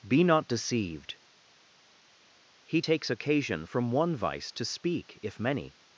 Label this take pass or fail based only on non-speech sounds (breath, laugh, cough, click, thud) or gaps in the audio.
pass